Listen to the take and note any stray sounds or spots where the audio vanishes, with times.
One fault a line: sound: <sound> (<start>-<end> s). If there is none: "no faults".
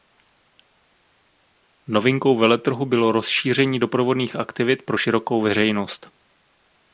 no faults